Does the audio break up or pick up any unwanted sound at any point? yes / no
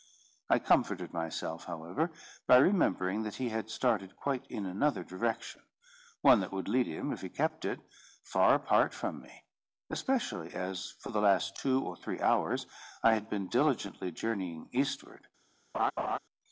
yes